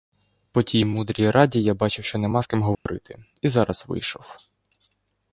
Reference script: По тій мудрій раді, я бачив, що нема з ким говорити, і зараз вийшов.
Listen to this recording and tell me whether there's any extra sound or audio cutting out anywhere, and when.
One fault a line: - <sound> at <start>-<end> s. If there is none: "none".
- dropout at 2.7-2.9 s